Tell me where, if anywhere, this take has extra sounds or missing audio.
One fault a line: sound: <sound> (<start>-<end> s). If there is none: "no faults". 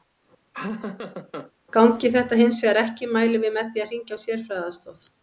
sound: laugh (0.5-1.5 s)